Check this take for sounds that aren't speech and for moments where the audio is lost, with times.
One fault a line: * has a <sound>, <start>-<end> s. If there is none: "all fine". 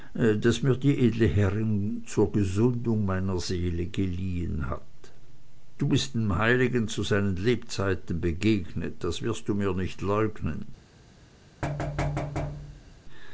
* has a thud, 11.6-13.0 s